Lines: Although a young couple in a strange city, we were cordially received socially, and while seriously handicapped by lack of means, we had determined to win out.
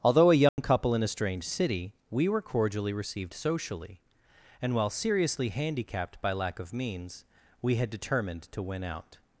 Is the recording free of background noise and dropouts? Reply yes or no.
no